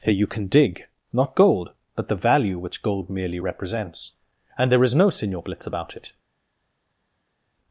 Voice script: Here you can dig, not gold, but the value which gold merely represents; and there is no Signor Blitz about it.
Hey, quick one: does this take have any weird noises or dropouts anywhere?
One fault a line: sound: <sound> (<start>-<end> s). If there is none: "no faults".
no faults